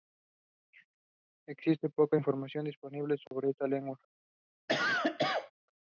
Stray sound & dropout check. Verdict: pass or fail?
fail